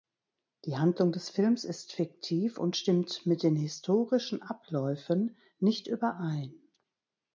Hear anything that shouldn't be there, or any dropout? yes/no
no